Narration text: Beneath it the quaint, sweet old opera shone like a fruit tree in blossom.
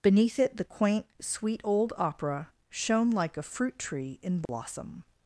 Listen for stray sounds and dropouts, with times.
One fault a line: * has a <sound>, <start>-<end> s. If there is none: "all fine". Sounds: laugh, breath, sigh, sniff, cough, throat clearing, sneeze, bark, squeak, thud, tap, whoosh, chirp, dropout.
* has a dropout, 4.5-4.5 s